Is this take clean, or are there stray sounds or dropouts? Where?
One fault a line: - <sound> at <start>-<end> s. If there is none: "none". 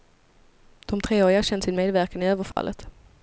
- dropout at 2.5-2.6 s